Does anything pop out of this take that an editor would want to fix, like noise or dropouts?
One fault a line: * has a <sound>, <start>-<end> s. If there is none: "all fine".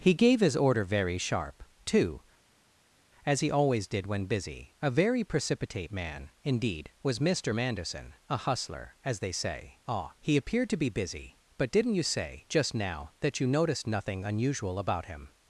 all fine